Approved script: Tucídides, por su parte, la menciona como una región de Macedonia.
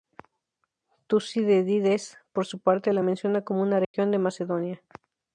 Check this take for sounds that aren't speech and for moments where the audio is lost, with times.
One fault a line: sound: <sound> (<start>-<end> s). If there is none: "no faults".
sound: dropout (3.8-3.9 s)